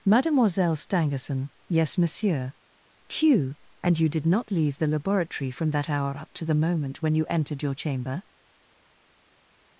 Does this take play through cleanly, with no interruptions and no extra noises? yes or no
yes